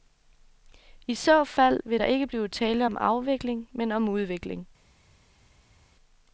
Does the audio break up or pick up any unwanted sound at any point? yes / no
no